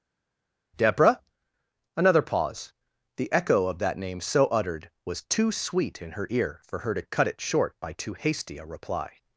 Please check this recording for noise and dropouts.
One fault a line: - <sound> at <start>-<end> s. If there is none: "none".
none